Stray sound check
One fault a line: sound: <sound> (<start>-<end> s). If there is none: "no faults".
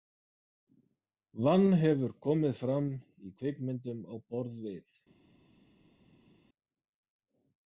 no faults